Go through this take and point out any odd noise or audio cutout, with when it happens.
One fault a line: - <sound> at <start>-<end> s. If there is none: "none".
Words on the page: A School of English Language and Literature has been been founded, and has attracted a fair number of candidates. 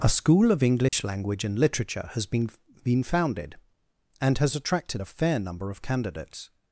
- dropout at 0.9-0.9 s